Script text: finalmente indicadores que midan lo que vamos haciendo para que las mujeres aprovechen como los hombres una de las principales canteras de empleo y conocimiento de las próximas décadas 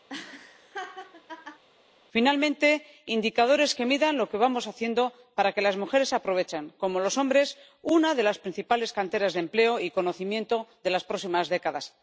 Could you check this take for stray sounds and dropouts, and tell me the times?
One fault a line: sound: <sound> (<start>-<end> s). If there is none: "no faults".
sound: laugh (0.1-1.6 s)